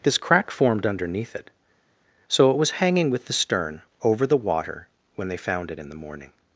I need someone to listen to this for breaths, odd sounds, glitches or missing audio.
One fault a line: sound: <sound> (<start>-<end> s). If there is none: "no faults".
no faults